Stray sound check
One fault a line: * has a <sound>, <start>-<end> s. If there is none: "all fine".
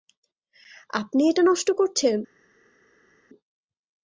all fine